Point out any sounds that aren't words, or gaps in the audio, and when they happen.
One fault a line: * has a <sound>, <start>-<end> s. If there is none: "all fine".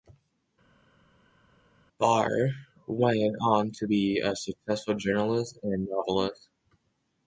all fine